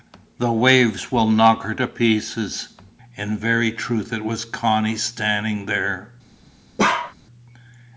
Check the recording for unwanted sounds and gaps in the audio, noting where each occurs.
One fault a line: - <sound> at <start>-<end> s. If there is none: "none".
- bark at 6.8-7.1 s